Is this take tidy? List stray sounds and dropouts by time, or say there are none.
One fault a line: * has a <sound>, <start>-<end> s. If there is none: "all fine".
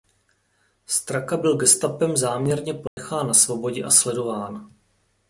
* has a dropout, 2.9-3.0 s